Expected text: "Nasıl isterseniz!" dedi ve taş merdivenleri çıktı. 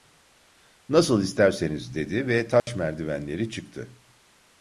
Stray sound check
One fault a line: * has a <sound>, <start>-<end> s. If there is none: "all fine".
* has a dropout, 2.6-2.7 s